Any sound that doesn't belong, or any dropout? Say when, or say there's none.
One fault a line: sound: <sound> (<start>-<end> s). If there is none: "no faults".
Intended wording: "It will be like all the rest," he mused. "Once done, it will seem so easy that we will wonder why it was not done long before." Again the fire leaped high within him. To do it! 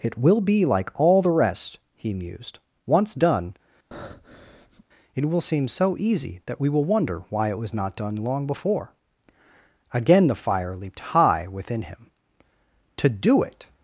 sound: breath (3.9-4.8 s)